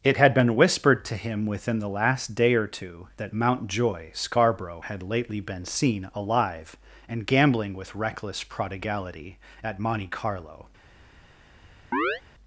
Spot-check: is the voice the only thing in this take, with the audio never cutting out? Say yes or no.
no